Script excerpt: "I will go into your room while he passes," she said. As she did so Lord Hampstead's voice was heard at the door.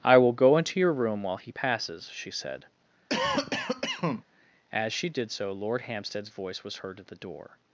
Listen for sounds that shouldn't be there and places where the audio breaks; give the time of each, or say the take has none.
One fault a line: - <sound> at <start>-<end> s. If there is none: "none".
- cough at 3.1-4.2 s